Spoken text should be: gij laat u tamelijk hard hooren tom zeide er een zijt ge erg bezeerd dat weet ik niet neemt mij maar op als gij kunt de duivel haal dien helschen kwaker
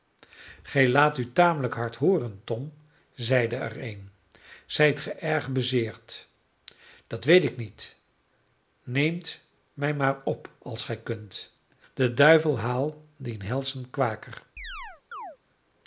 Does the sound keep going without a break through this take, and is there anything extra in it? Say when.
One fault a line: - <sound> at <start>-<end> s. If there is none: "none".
- chirp at 14.6-15.4 s